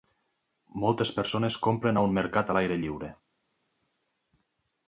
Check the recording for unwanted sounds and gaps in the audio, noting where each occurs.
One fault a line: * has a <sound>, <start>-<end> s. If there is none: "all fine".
all fine